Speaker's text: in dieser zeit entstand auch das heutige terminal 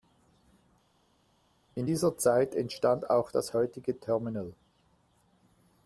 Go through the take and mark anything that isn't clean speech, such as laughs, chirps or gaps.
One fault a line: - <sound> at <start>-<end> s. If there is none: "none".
none